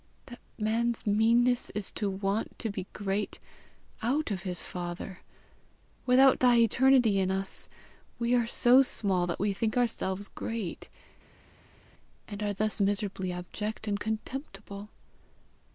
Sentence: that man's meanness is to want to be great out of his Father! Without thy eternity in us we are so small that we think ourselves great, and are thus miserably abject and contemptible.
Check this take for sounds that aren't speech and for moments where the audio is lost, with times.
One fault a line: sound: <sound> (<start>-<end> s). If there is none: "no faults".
no faults